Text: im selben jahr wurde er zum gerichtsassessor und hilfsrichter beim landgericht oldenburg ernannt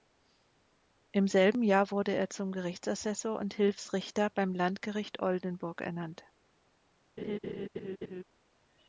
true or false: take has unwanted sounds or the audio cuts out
true